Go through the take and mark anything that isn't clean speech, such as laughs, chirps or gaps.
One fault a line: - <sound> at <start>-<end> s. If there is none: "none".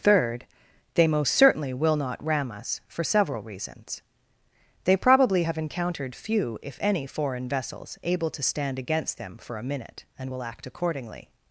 none